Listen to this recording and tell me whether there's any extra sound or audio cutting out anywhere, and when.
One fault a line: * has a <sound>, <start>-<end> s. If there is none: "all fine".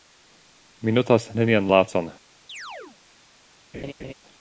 * has a chirp, 2.5-3.0 s
* has a laugh, 3.7-4.1 s